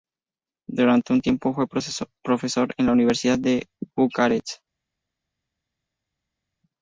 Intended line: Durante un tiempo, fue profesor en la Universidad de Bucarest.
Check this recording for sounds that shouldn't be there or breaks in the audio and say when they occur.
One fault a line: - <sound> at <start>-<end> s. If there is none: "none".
none